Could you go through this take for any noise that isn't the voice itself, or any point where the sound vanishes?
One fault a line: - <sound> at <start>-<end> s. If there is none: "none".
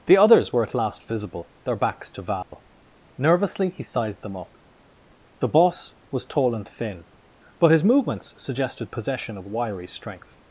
- dropout at 2.4-2.5 s